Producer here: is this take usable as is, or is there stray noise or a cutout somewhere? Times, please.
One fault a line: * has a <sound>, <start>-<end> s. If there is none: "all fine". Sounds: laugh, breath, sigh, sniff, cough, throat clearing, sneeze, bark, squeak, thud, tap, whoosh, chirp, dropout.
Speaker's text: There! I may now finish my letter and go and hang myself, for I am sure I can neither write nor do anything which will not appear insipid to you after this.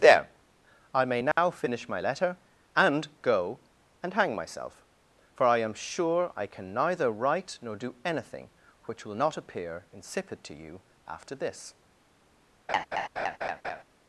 * has a dropout, 1.3-1.4 s
* has a laugh, 12.7-13.8 s